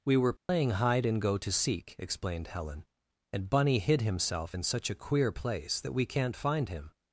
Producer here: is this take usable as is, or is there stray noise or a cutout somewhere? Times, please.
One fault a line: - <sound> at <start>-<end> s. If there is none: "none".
- dropout at 0.4-0.5 s